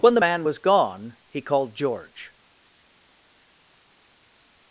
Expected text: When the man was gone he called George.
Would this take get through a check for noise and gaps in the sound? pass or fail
pass